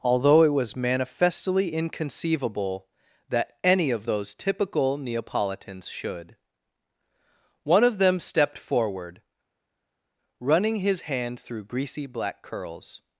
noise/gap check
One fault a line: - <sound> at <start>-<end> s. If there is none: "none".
none